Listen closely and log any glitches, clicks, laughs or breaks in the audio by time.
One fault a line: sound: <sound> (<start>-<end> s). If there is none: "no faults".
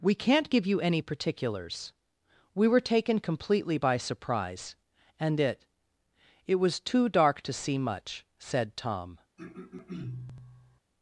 sound: throat clearing (9.4-10.8 s)